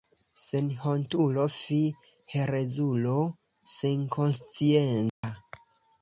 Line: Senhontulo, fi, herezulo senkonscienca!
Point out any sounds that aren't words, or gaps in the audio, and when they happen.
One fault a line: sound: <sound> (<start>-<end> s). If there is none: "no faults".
sound: dropout (5.1-5.2 s)